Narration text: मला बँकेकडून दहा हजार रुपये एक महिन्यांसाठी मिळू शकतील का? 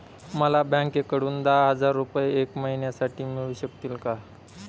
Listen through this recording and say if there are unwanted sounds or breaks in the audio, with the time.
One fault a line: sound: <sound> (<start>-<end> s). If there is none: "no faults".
no faults